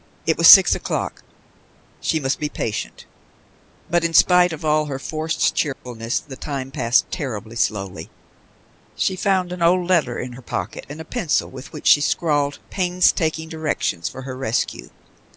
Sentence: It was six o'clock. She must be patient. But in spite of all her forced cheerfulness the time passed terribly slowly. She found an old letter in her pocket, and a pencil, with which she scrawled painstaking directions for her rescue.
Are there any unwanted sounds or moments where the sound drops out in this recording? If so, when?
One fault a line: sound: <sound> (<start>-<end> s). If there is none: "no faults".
sound: dropout (5.7-5.9 s)